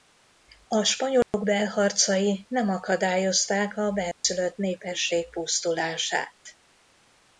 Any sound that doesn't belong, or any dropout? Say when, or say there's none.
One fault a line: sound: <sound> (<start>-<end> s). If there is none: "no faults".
sound: dropout (1.2-1.3 s)
sound: dropout (4.1-4.2 s)